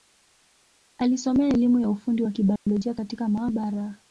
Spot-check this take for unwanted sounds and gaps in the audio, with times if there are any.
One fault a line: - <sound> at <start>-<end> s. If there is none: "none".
- dropout at 2.6-2.7 s